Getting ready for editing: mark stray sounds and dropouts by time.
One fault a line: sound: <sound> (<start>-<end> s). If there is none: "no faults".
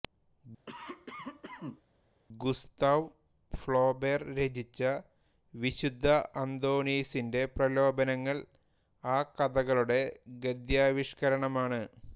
sound: cough (0.7-1.8 s)